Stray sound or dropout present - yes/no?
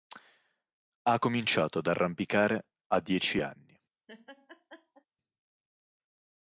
yes